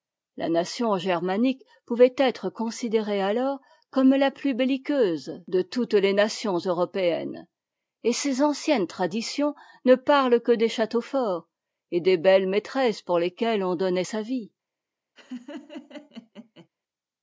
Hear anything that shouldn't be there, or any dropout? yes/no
yes